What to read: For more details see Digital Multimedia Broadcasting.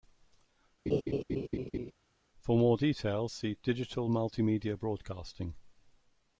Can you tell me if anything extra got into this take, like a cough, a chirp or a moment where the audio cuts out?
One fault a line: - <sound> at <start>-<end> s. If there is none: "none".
- laugh at 0.9-1.9 s